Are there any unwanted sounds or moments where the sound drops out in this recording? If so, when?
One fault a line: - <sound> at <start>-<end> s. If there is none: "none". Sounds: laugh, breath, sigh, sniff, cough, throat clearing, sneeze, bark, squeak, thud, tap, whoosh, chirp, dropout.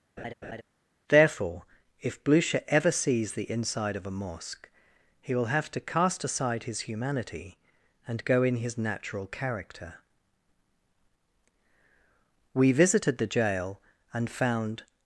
- laugh at 0.2-0.6 s